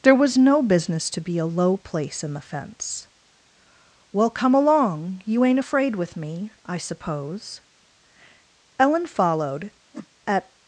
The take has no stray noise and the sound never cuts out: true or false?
false